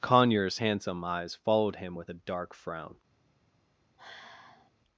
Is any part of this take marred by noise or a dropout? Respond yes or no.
yes